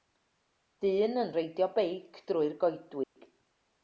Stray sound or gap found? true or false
true